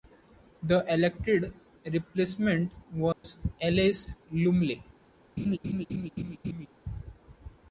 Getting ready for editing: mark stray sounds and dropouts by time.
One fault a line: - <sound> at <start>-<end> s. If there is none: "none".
- dropout at 3.1-3.2 s
- laugh at 5.4-6.7 s